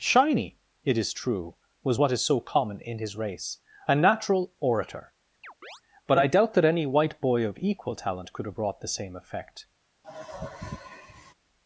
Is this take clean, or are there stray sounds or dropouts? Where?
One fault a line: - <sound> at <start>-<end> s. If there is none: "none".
- chirp at 5.4-5.8 s
- sigh at 10.0-11.3 s